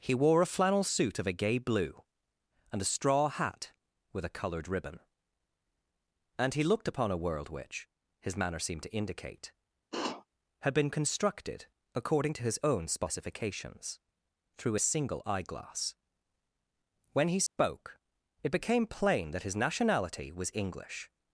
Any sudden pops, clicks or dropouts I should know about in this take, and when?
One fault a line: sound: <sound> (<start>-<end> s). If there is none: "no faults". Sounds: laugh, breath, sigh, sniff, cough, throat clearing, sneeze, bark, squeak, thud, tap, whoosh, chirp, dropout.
sound: sniff (9.9-10.3 s)
sound: dropout (17.5-17.6 s)